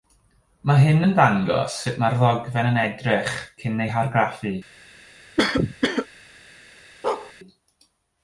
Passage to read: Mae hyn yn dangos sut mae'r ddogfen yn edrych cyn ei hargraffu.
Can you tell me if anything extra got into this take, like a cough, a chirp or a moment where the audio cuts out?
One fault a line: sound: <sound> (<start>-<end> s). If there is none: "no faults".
sound: cough (5.4-6.1 s)
sound: bark (7.0-7.3 s)